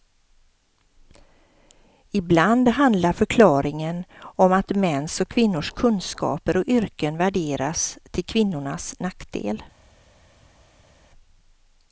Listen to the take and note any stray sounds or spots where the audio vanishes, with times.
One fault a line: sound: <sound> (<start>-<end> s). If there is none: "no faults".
no faults